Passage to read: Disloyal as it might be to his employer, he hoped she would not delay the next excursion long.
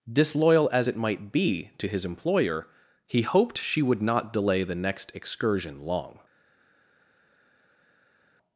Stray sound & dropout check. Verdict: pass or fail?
pass